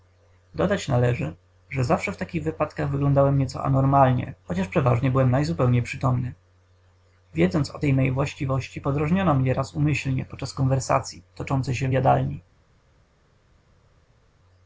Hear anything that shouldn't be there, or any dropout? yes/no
no